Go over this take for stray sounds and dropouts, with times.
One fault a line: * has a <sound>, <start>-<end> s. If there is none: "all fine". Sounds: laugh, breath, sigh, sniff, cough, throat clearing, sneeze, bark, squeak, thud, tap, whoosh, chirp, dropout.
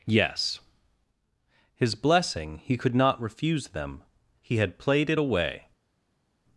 all fine